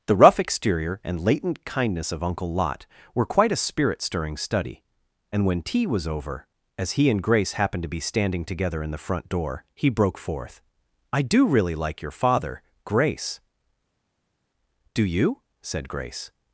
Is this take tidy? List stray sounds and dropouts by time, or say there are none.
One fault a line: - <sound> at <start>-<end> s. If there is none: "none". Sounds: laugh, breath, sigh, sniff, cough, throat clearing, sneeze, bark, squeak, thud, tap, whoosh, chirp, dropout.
none